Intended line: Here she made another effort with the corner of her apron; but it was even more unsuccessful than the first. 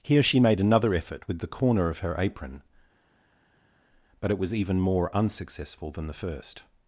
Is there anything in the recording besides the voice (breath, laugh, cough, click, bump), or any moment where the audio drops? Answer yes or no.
no